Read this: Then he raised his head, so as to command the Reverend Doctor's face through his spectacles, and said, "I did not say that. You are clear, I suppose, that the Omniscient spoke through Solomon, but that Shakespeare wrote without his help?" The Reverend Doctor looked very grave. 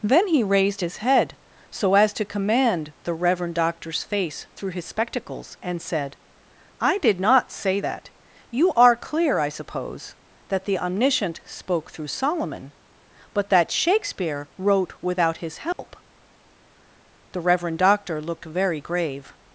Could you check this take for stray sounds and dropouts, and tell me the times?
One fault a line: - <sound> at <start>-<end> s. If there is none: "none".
- dropout at 15.7-15.8 s